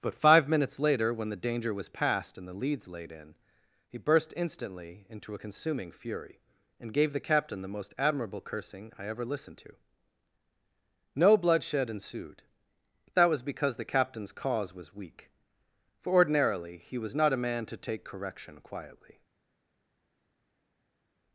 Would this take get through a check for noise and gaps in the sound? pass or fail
pass